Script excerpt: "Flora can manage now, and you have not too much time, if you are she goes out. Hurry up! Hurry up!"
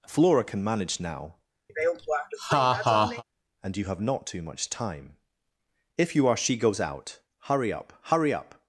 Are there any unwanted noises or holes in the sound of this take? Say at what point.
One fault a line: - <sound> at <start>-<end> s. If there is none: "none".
- laugh at 1.7-3.2 s